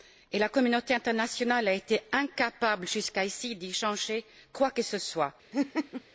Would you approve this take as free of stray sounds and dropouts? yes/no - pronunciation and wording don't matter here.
no